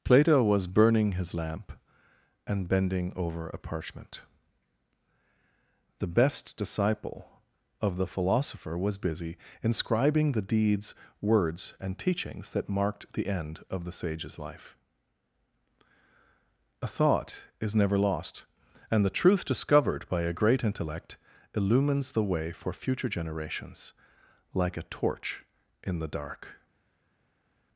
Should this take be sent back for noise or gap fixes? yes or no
no